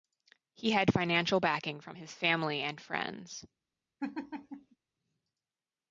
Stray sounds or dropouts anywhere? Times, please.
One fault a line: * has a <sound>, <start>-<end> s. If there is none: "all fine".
* has a laugh, 4.0-4.8 s